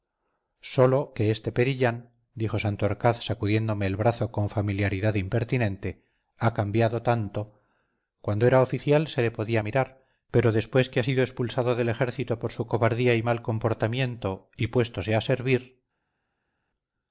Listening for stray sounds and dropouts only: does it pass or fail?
pass